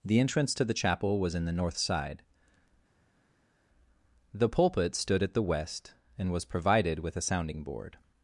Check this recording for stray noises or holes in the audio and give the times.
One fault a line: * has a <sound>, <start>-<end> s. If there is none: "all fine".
all fine